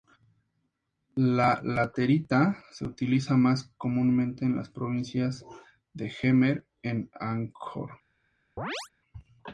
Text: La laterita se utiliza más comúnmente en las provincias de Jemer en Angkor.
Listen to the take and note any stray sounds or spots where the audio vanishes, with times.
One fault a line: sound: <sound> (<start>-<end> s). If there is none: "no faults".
sound: chirp (8.6-8.9 s)